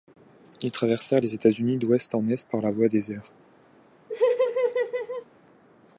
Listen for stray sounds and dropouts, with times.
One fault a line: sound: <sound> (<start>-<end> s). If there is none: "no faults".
sound: laugh (4.1-5.3 s)